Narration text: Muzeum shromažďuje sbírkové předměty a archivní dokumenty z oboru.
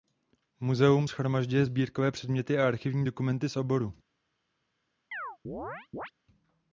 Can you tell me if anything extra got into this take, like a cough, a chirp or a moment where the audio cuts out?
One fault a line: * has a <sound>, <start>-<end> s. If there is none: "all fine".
* has a chirp, 5.1-6.1 s